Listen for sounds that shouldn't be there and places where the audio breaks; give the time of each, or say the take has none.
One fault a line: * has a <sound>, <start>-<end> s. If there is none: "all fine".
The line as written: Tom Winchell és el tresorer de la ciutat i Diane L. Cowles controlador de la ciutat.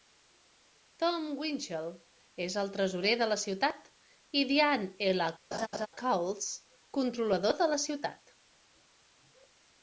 * has a laugh, 5.5-5.9 s